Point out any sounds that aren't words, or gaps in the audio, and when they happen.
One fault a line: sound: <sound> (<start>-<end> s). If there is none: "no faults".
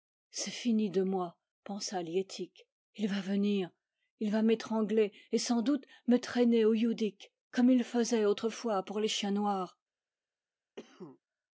sound: cough (10.8-11.2 s)